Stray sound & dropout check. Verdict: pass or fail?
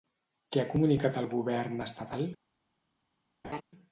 fail